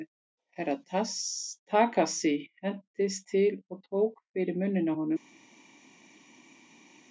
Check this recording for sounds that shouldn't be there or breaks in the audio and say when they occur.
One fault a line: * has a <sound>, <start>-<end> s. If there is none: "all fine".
all fine